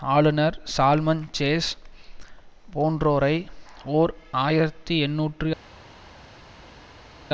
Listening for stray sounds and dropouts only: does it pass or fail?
pass